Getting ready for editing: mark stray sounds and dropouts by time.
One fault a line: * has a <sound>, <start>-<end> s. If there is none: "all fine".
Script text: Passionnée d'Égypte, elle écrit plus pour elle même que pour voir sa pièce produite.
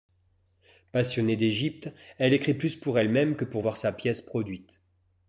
all fine